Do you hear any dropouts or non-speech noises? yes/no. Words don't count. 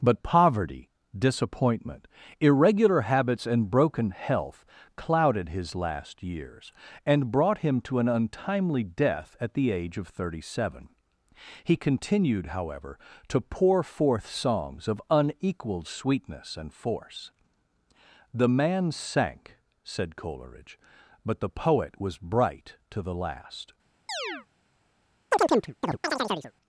yes